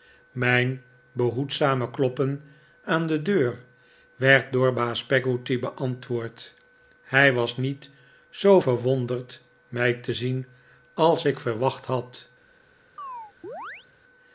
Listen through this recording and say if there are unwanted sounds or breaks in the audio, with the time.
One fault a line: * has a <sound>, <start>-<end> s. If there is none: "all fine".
* has a chirp, 13.0-13.9 s